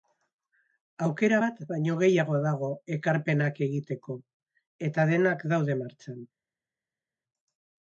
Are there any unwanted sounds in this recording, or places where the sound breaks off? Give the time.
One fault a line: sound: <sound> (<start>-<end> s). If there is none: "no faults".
no faults